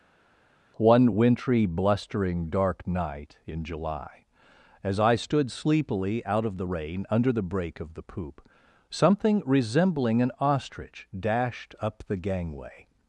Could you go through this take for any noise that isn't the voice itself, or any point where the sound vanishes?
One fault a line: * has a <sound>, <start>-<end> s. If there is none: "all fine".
all fine